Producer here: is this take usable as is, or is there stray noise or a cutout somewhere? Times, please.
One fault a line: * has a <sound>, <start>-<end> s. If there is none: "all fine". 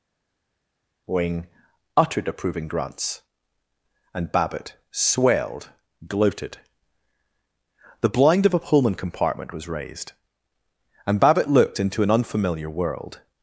all fine